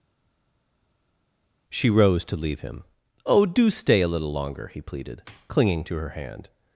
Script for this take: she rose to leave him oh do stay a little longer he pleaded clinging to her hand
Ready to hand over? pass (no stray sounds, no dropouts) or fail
pass